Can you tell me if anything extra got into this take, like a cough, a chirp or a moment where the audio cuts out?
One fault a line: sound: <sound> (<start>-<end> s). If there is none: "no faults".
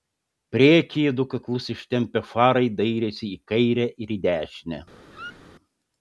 sound: squeak (5.1-5.5 s)